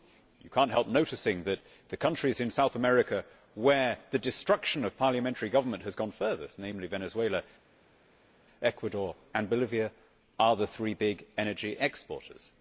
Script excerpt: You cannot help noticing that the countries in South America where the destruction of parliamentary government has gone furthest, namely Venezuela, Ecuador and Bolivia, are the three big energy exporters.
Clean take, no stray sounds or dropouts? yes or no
yes